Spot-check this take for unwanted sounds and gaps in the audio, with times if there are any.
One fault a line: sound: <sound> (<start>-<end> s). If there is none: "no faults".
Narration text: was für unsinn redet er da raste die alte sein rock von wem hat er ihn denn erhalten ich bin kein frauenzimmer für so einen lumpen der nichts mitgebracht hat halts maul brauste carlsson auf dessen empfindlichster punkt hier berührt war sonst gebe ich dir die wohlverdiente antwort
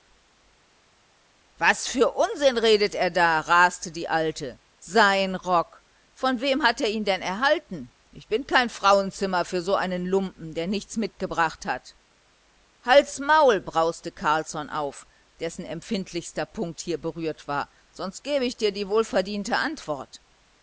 no faults